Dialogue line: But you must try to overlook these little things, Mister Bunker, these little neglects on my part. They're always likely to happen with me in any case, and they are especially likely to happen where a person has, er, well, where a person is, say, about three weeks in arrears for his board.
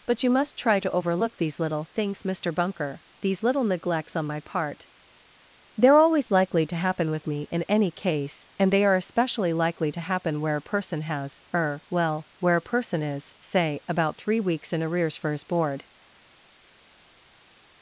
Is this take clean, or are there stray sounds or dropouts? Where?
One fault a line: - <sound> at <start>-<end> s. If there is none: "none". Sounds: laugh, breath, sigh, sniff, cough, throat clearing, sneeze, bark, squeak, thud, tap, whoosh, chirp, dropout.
none